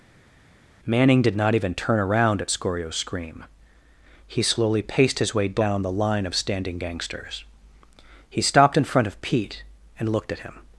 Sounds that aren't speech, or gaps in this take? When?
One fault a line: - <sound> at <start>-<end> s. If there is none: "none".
none